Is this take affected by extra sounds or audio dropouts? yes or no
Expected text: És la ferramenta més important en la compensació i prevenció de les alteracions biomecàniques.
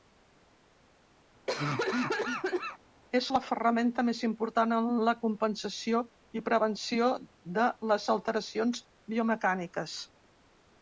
yes